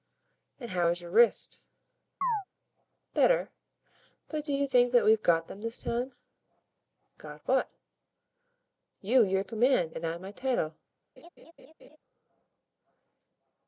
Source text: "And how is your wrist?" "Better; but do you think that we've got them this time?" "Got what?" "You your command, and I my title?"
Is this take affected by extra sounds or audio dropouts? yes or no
yes